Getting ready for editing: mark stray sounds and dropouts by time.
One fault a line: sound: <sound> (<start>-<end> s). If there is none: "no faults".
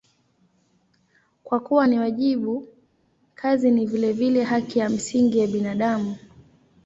no faults